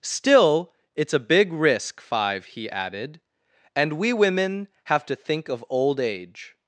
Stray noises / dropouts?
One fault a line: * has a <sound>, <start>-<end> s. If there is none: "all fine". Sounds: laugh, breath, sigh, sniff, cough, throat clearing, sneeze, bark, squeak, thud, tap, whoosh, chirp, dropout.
all fine